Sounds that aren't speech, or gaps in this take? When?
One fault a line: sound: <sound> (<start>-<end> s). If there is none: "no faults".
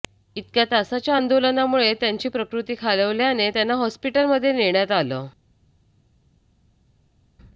no faults